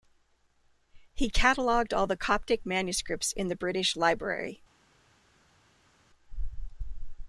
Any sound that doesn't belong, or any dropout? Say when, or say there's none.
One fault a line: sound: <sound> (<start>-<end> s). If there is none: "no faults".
no faults